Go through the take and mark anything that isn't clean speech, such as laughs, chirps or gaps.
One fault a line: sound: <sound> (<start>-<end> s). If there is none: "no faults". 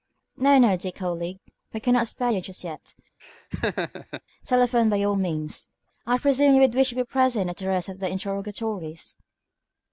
sound: laugh (3.2-4.2 s)